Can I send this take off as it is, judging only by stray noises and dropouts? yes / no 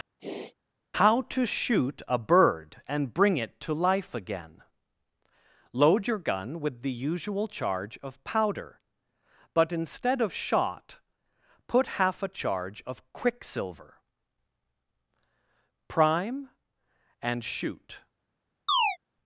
no